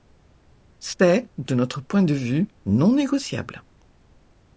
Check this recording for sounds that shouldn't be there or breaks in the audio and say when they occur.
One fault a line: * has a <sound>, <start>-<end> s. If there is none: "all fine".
all fine